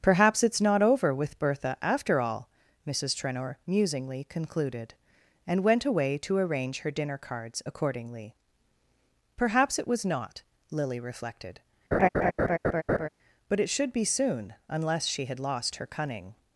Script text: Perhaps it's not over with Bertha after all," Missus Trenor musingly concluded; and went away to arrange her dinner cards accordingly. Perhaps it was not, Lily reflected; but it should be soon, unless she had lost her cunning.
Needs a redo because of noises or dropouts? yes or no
yes